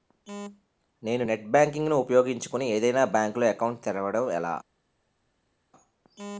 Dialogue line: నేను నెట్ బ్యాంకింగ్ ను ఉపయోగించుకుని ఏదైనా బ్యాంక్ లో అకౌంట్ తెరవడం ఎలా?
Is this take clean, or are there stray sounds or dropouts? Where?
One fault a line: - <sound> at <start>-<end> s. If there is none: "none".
none